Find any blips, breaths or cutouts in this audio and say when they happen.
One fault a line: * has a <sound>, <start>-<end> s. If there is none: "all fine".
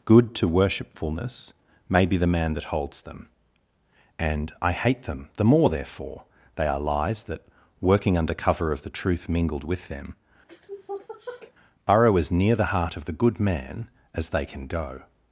* has a sniff, 10.5-11.5 s